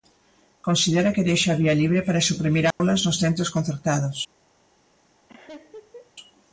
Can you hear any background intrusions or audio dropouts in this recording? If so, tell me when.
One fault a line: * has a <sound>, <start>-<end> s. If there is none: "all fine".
* has a dropout, 2.7-2.8 s
* has a laugh, 5.3-6.1 s